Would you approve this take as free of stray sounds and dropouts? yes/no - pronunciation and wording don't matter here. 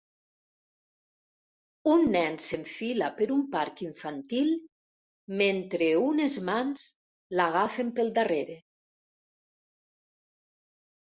yes